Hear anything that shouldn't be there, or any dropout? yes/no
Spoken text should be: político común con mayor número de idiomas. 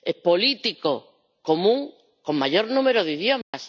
yes